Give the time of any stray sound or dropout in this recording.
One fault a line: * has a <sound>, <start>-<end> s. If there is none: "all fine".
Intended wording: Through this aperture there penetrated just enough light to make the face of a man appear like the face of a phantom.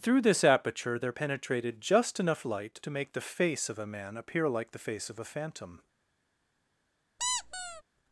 * has a squeak, 7.2-7.8 s